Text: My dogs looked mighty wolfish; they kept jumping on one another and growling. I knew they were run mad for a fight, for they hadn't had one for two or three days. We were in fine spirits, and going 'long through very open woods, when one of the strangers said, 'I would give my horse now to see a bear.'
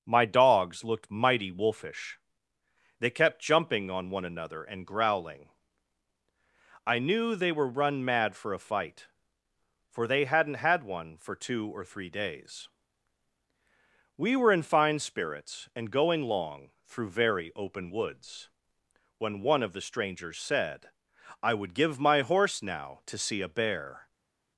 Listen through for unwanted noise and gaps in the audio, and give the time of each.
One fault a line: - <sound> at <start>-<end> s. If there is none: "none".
none